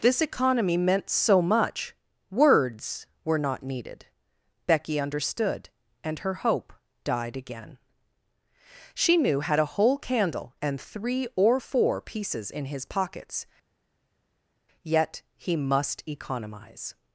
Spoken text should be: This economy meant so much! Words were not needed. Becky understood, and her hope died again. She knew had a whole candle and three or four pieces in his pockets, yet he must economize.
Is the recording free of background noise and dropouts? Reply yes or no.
yes